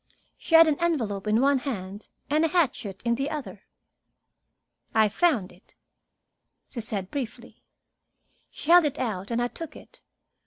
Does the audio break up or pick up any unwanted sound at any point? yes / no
no